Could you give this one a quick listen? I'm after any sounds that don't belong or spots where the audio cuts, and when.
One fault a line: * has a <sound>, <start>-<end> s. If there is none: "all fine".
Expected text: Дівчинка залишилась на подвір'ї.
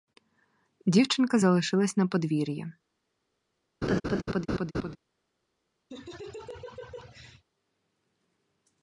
* has a laugh, 3.8-5.0 s
* has a laugh, 5.9-7.4 s